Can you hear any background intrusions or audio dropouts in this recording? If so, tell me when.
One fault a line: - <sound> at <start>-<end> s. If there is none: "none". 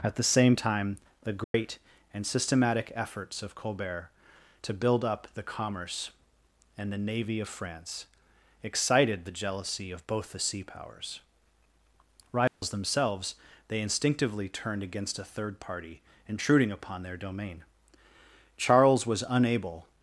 - dropout at 1.4-1.5 s
- dropout at 12.5-12.6 s